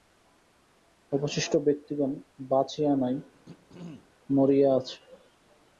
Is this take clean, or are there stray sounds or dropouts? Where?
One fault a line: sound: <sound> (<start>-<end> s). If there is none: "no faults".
sound: throat clearing (3.3-4.1 s)